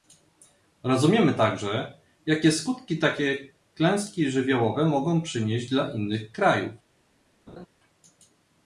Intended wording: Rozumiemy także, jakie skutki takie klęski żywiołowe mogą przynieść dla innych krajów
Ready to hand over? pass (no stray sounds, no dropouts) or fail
fail